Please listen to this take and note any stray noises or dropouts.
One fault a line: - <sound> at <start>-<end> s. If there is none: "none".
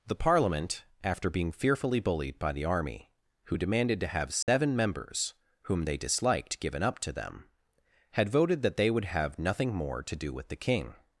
- dropout at 4.4-4.5 s